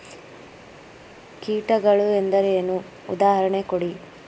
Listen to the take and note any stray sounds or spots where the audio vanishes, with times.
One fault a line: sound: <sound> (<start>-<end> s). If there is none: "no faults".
no faults